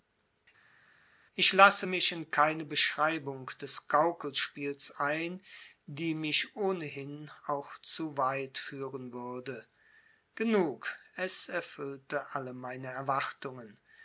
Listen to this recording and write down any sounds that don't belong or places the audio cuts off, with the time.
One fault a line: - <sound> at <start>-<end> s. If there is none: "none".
none